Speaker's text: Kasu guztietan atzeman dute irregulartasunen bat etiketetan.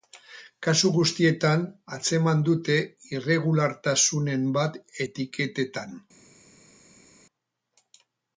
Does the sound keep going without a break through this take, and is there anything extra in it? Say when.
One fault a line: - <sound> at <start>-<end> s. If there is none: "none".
none